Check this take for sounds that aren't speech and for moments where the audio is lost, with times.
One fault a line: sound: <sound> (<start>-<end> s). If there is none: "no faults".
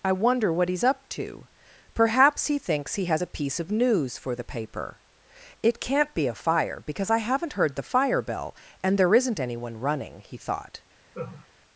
sound: laugh (11.1-11.5 s)